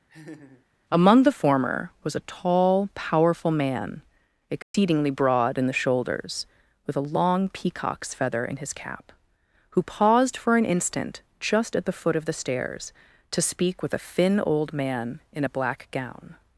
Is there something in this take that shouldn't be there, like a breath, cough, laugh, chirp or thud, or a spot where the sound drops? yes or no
yes